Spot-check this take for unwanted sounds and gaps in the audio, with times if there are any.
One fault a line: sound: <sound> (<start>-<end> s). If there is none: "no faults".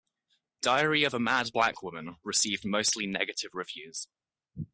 no faults